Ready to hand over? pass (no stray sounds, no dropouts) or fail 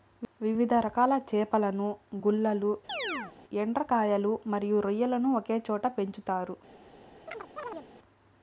fail